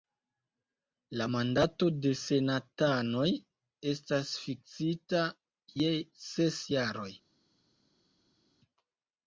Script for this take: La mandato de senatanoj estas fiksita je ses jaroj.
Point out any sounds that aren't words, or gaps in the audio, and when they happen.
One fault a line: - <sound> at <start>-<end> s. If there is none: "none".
none